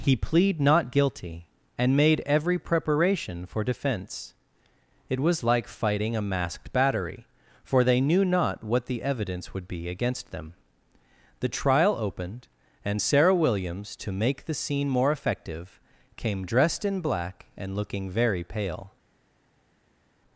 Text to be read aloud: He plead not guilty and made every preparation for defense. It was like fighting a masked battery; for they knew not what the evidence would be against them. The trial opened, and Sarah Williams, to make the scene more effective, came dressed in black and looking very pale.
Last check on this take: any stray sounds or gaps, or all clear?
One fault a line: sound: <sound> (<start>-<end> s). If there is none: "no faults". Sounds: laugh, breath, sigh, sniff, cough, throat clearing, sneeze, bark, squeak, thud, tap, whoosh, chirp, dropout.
no faults